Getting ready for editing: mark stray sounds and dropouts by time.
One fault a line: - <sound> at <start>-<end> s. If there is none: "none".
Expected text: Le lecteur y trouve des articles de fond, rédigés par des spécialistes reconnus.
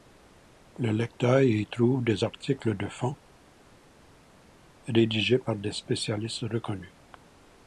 none